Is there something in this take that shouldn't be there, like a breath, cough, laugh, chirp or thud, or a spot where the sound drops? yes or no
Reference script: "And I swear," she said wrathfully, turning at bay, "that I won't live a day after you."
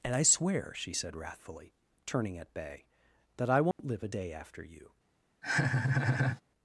yes